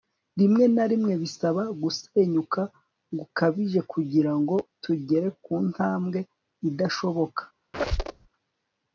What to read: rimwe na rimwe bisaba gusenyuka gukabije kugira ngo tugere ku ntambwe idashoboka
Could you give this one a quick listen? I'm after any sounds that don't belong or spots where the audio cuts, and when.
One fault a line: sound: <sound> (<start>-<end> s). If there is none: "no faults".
sound: squeak (7.7-8.3 s)